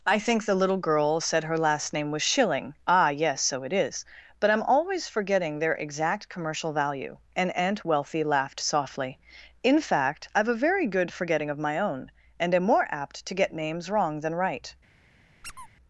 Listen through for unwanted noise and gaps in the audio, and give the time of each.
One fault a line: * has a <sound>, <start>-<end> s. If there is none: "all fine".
* has a squeak, 15.4-15.7 s